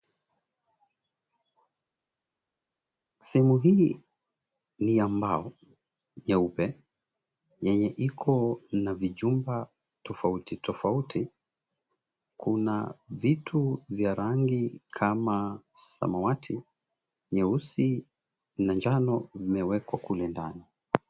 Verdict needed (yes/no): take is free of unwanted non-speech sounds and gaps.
yes